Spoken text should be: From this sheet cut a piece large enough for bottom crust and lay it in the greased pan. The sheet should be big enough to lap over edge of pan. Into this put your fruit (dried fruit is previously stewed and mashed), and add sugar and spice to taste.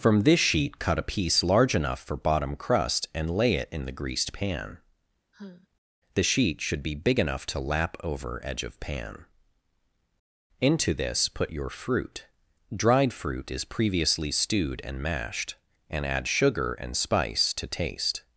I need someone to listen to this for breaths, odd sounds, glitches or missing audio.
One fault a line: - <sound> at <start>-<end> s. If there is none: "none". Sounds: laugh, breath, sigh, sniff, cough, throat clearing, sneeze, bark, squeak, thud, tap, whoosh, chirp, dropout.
- sigh at 5.3-5.7 s